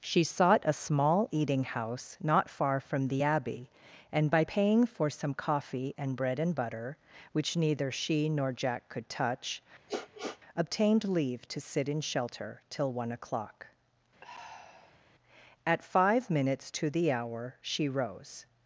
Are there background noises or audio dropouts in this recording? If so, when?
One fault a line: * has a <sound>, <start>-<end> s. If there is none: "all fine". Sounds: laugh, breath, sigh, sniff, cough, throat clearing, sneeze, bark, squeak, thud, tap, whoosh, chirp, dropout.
* has a sniff, 9.9-10.4 s
* has a sigh, 14.2-15.0 s